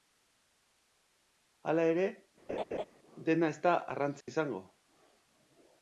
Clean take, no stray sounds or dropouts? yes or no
no